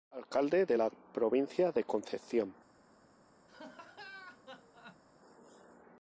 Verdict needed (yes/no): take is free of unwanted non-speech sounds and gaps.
no